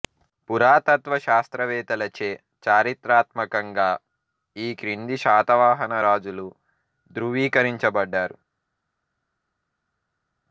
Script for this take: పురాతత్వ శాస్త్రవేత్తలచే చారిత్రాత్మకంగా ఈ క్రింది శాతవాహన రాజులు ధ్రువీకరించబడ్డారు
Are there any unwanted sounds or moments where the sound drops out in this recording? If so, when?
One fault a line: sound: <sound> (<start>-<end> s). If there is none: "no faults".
no faults